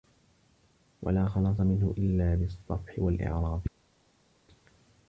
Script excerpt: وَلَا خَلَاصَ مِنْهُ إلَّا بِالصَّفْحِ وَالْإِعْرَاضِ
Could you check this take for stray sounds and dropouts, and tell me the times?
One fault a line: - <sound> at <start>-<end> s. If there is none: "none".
none